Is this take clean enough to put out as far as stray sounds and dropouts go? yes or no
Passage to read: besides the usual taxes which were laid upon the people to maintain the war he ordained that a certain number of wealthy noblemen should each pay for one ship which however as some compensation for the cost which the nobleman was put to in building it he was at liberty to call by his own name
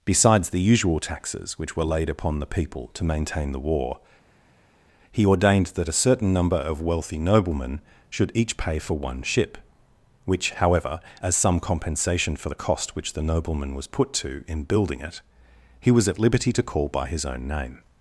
yes